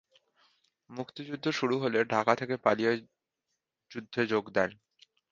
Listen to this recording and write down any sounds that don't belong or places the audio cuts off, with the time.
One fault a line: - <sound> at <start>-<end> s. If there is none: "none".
none